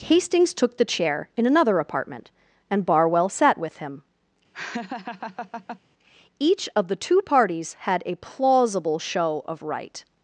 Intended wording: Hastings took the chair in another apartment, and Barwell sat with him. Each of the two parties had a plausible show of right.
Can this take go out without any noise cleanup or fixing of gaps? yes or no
no